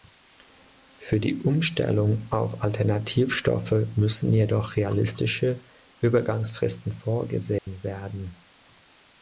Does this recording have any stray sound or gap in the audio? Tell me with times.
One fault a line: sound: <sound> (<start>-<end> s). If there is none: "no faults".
sound: dropout (7.6-7.7 s)